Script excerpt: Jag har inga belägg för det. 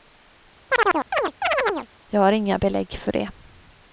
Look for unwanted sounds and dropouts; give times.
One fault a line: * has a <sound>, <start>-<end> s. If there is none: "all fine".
* has a chirp, 0.7-1.9 s